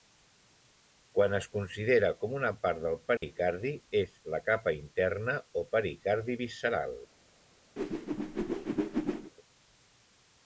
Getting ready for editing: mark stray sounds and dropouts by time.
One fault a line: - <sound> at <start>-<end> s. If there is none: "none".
- dropout at 3.2-3.2 s
- whoosh at 7.8-9.3 s